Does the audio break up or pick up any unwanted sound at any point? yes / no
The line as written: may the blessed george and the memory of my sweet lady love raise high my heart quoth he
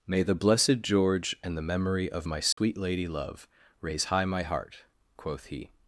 yes